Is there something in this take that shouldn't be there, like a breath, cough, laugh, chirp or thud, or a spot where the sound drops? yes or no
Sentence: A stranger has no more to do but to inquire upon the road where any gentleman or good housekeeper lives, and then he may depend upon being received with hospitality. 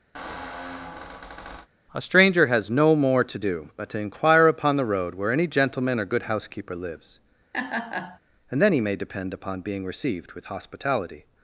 yes